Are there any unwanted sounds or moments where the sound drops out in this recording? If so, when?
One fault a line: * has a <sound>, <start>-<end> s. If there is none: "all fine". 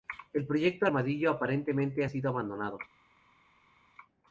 all fine